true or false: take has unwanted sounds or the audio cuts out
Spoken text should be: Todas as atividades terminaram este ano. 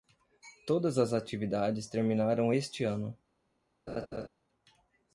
true